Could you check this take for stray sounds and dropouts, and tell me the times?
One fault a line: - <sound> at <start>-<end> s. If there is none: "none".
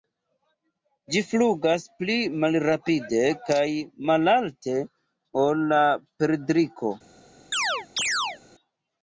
- chirp at 7.5-8.4 s